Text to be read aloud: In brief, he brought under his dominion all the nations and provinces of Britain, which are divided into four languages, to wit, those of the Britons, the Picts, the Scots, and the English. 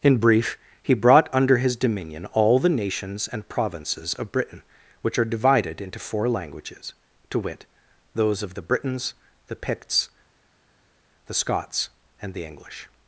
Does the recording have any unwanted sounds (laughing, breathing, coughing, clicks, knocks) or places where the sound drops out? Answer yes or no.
no